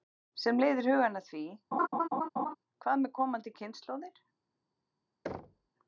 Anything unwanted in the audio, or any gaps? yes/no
yes